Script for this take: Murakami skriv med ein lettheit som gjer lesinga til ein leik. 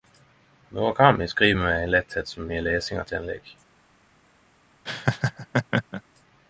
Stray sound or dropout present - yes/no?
yes